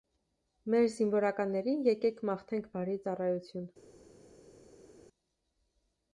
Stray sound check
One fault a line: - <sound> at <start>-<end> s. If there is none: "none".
none